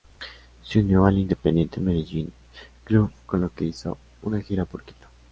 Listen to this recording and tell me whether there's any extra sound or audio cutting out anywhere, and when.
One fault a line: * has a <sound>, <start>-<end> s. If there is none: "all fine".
all fine